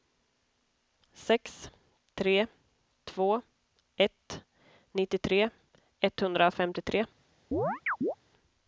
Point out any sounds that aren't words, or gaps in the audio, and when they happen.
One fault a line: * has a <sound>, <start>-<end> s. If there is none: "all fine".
* has a chirp, 7.5-8.2 s